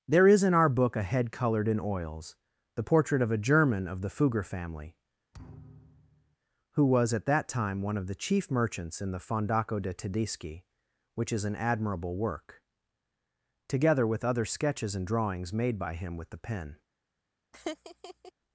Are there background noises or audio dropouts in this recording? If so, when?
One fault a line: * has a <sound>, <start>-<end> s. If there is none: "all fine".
* has a thud, 5.3-6.4 s
* has a laugh, 17.5-18.3 s